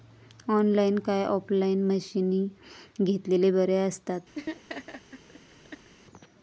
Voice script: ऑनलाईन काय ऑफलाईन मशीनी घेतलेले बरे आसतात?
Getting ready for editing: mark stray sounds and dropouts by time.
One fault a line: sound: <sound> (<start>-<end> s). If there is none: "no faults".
sound: laugh (4.3-5.9 s)